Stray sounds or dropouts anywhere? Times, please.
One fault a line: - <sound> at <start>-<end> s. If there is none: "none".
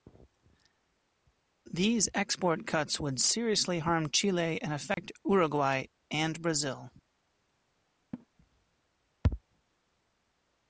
- dropout at 4.9-5.0 s
- laugh at 8.1-8.3 s